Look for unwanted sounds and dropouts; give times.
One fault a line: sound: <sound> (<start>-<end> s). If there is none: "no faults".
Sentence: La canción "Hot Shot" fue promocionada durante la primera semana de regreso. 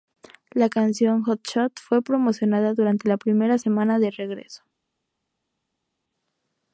no faults